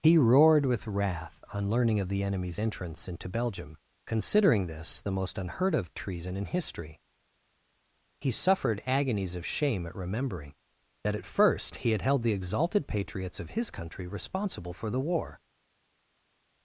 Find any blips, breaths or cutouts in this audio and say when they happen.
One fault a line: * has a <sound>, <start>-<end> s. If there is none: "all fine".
all fine